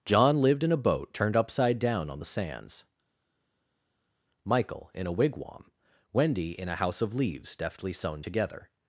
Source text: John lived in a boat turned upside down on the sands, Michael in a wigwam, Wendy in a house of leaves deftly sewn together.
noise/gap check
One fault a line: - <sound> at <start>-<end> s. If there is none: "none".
none